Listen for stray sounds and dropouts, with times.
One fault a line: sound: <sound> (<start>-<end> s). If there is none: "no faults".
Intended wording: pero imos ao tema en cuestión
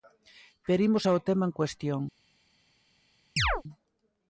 sound: chirp (3.4-3.6 s)